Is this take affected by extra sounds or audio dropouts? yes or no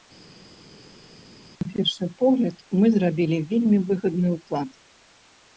no